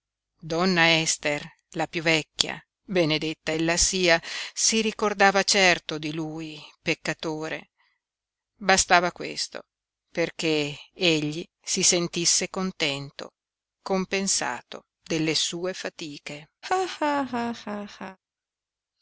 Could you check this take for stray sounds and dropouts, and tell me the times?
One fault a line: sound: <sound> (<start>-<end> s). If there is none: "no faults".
sound: laugh (16.6-18.2 s)